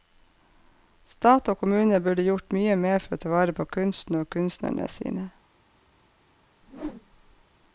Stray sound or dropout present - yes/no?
yes